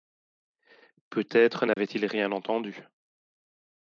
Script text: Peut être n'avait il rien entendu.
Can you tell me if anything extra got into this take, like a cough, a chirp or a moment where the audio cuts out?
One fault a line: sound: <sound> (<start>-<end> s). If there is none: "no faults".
sound: dropout (1.7-1.8 s)